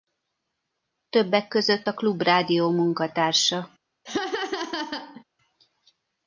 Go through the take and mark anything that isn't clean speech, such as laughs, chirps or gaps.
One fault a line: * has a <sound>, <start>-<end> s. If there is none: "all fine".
* has a laugh, 4.0-5.2 s